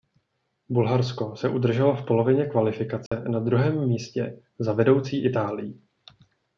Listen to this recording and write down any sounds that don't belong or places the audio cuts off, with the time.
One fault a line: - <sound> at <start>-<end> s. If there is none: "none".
- dropout at 3.1-3.1 s